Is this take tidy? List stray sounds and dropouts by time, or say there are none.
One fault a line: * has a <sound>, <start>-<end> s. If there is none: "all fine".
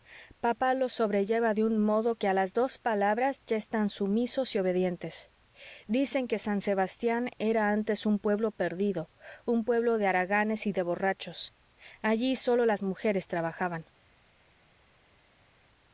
all fine